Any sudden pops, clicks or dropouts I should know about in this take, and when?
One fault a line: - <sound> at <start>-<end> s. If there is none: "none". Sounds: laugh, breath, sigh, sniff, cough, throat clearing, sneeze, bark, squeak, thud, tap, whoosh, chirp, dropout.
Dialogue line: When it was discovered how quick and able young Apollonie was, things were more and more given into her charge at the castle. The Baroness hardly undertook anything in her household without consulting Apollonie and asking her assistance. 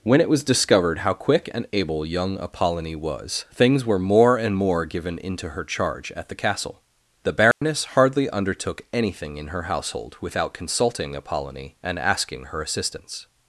- dropout at 7.5-7.6 s